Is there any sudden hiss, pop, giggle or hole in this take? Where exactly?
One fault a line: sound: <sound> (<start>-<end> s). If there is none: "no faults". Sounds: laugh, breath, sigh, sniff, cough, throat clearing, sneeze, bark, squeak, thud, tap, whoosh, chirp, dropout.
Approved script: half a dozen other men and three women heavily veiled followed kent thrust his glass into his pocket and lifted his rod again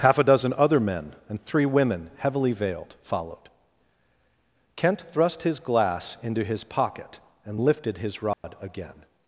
sound: dropout (8.3-8.4 s)